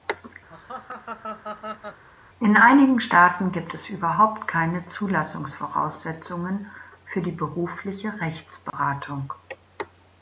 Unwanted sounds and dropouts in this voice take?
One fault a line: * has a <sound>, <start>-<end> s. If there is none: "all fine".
* has a laugh, 0.5-2.0 s
* has a dropout, 8.7-8.7 s